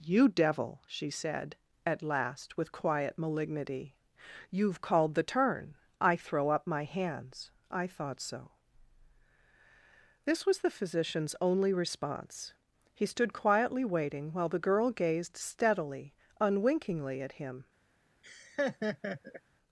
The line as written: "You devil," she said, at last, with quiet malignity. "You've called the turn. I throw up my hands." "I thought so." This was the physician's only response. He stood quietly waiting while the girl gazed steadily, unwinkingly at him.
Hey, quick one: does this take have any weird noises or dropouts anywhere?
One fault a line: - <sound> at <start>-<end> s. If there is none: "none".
- laugh at 18.2-19.4 s